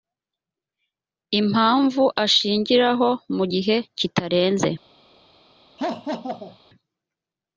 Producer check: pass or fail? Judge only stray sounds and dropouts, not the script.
fail